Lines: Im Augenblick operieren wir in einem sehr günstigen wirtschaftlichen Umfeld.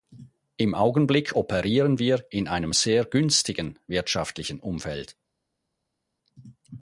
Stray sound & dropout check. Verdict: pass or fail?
pass